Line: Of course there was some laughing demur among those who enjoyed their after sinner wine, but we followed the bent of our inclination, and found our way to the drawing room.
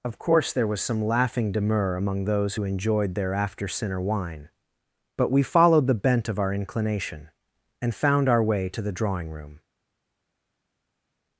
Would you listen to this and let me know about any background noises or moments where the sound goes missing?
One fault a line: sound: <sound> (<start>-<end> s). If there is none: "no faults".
no faults